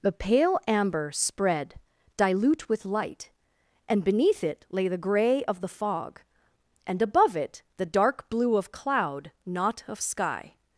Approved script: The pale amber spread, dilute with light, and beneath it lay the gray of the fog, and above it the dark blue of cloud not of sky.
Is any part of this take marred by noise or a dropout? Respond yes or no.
no